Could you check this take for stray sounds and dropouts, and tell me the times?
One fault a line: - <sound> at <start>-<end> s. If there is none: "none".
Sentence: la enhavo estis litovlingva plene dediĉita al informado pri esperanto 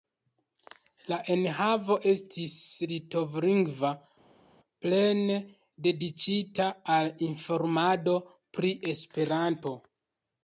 none